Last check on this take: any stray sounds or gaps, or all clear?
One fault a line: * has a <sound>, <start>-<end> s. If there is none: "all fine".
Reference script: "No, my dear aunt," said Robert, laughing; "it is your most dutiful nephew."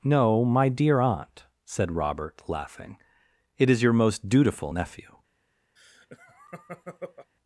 * has a laugh, 5.8-7.3 s